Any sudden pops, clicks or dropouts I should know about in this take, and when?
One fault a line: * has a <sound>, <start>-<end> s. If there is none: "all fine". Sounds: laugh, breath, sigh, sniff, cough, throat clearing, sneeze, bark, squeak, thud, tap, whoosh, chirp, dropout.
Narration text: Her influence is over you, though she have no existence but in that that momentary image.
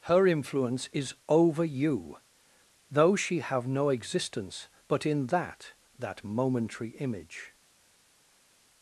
all fine